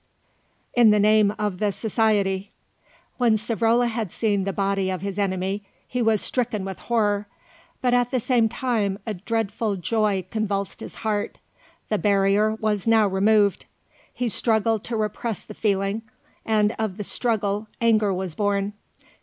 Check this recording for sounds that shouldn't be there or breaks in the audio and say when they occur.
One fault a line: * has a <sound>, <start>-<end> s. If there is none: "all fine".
all fine